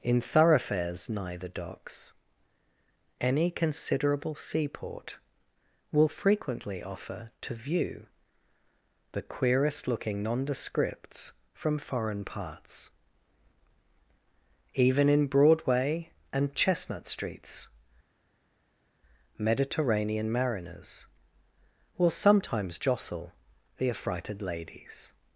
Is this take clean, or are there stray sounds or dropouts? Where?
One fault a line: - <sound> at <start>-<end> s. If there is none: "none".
none